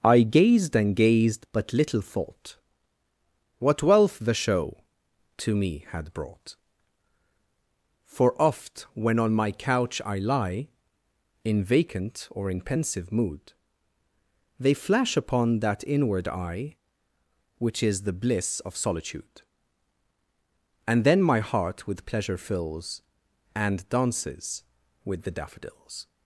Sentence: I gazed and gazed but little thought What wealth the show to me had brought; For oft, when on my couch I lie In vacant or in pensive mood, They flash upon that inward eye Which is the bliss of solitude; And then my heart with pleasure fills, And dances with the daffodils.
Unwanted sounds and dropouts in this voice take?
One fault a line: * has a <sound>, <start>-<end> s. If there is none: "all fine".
all fine